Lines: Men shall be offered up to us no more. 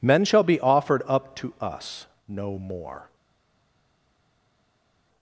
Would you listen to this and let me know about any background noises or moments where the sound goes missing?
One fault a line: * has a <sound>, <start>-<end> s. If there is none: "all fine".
all fine